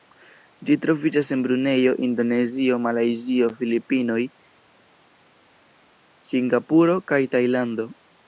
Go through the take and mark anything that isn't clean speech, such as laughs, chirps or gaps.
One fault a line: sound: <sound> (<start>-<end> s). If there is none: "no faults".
no faults